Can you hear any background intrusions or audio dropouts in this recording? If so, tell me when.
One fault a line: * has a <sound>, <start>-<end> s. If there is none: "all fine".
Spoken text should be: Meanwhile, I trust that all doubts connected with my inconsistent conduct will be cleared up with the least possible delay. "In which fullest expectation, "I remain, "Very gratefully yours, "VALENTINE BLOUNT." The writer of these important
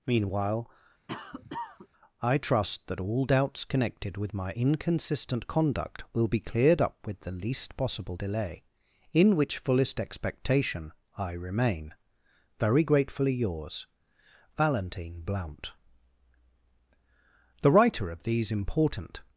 * has a cough, 1.1-1.9 s